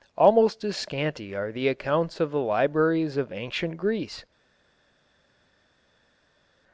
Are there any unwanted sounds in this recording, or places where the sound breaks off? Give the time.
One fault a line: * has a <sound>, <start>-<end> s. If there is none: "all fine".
all fine